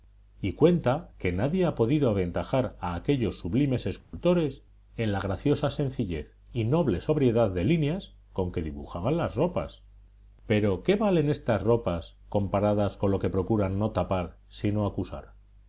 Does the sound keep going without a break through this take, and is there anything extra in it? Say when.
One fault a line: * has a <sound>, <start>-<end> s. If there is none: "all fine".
* has a dropout, 4.0-4.1 s